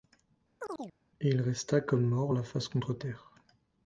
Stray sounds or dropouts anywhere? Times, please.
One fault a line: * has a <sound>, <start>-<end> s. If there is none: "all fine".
* has a chirp, 0.6-1.0 s